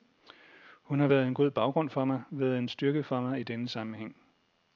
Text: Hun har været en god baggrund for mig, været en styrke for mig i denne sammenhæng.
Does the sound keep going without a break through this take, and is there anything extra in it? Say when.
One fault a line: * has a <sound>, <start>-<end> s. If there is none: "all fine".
all fine